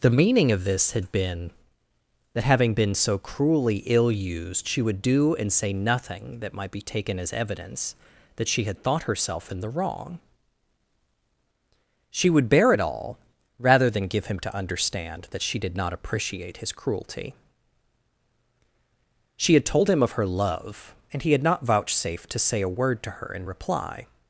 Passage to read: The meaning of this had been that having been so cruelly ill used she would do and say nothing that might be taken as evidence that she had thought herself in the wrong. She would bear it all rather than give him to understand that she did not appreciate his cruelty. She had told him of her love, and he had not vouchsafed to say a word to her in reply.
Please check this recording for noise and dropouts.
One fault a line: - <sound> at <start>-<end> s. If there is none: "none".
none